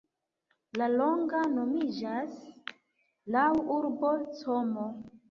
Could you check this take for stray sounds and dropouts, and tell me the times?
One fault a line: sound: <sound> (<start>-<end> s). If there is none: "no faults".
no faults